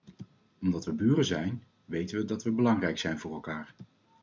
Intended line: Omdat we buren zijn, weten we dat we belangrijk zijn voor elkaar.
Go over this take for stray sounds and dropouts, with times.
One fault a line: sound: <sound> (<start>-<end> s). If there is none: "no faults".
no faults